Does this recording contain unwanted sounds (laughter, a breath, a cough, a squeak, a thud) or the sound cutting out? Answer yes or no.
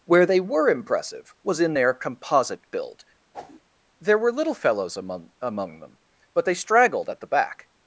yes